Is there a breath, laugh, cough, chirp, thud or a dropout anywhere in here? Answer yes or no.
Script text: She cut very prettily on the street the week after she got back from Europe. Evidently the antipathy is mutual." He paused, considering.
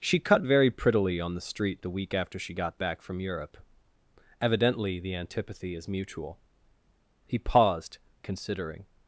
no